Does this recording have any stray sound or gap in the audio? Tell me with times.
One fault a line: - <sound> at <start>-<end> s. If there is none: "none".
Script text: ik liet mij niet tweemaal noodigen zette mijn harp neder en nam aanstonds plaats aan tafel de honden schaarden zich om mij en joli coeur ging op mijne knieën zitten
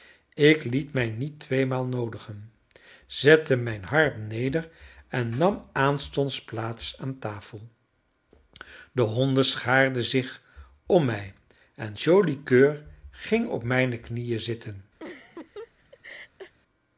- laugh at 15.0-16.5 s